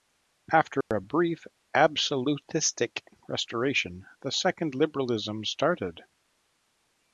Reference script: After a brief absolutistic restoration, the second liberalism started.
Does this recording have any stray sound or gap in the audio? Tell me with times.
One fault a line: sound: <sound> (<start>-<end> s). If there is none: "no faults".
sound: dropout (0.8-0.9 s)